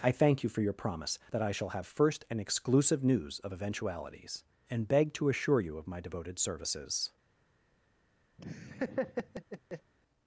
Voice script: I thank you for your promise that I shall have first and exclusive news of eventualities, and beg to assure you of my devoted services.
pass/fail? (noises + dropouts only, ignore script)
fail